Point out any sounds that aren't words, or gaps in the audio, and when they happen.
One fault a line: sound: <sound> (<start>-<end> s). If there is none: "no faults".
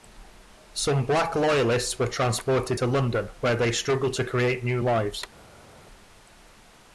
no faults